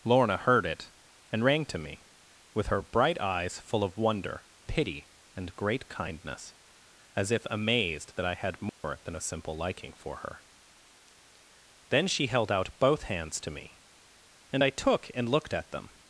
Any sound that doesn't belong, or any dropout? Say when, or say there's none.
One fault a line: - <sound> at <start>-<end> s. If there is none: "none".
- dropout at 8.7-8.8 s